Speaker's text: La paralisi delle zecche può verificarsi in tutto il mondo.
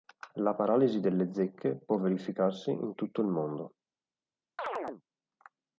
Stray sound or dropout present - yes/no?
yes